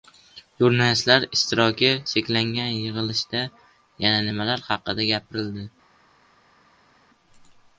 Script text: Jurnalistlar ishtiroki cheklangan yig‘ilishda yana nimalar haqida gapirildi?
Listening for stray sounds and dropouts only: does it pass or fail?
pass